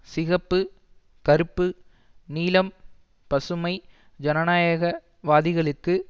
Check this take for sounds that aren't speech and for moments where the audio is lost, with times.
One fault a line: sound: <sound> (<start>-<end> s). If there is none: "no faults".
no faults